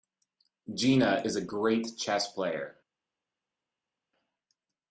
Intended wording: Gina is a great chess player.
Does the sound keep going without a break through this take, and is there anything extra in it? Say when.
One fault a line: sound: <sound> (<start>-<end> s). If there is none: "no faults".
no faults